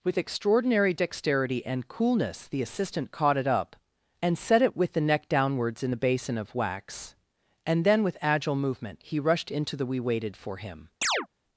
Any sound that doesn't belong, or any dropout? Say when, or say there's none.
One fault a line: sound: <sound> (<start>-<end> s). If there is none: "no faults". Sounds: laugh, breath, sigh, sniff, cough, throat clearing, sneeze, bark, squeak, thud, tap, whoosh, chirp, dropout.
sound: chirp (11.0-11.3 s)